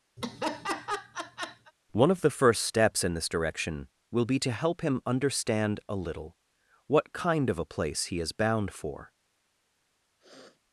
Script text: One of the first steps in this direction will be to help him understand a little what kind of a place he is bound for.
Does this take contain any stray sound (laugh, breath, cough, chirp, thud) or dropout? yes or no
yes